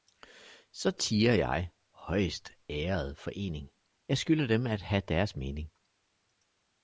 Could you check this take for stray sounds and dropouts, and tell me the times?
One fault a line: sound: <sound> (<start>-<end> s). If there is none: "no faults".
no faults